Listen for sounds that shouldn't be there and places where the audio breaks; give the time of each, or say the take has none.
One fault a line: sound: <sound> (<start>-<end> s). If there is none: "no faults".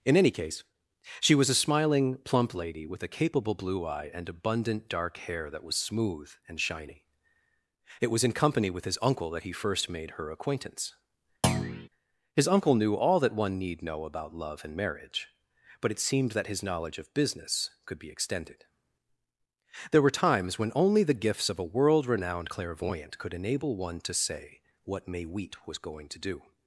sound: thud (11.4-11.9 s)